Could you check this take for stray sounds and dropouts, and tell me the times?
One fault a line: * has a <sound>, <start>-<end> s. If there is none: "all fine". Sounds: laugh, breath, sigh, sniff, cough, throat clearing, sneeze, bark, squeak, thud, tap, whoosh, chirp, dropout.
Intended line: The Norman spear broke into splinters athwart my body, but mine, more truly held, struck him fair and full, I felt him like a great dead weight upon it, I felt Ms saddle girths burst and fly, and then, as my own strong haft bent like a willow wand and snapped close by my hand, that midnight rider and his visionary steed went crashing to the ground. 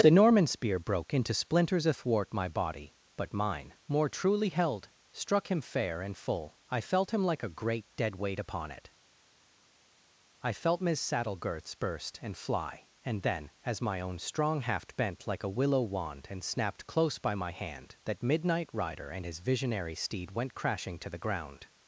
all fine